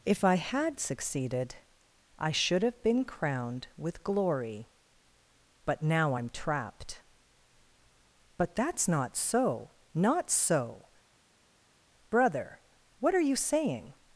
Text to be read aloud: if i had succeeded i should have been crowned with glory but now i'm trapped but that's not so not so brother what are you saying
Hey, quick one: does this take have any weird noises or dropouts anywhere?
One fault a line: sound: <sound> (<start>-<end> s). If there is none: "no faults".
no faults